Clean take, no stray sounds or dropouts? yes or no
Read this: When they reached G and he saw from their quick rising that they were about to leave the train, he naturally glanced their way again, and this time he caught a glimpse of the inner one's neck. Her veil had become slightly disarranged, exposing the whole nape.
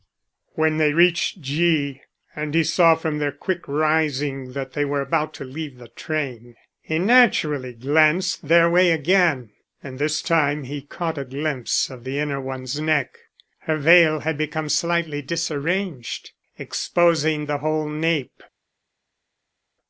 yes